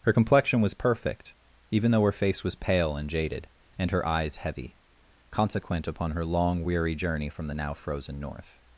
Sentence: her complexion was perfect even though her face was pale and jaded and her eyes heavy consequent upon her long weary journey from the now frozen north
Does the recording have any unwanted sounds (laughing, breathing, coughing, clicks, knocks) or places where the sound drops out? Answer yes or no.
no